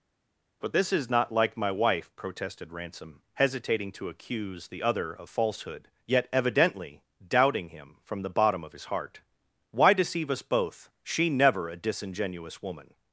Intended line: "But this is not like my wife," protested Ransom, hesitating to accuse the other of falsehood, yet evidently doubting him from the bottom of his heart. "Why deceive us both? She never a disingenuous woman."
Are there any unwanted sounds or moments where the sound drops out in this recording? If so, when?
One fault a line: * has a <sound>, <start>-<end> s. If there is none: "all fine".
all fine